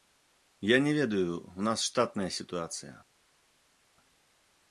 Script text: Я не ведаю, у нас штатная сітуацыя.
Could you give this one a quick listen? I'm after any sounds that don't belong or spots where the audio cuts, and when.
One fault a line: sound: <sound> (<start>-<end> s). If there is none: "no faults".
no faults